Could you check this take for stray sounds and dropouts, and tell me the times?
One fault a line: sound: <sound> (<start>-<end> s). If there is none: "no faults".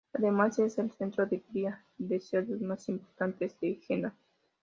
no faults